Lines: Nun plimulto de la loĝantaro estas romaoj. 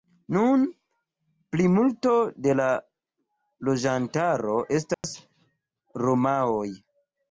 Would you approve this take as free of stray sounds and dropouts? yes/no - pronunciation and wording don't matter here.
no